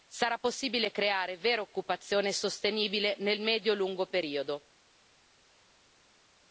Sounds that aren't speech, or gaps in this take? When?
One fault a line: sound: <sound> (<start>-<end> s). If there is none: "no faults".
no faults